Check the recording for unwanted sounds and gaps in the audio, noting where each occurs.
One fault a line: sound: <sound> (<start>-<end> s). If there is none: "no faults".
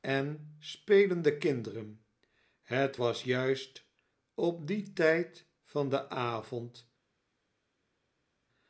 no faults